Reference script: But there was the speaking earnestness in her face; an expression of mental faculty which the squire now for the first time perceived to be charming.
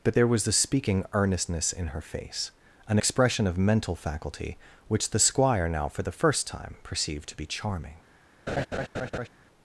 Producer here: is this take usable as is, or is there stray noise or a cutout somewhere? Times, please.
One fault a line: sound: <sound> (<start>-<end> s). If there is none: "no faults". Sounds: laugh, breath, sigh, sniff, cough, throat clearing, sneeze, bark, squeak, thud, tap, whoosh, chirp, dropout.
sound: laugh (8.5-9.3 s)